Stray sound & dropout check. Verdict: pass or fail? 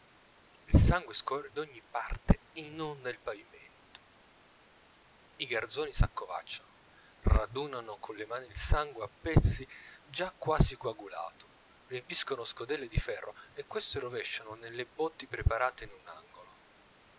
pass